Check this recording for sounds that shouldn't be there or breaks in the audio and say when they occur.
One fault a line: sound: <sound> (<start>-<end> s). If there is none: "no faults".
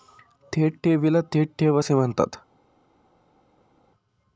no faults